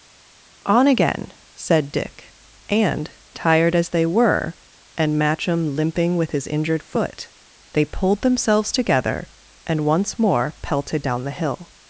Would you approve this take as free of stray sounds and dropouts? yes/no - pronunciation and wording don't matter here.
yes